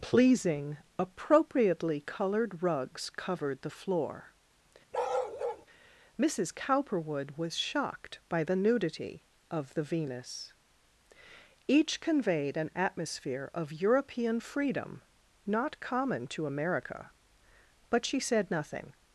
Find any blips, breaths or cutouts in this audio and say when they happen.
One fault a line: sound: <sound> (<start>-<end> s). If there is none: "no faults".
sound: bark (4.9-5.7 s)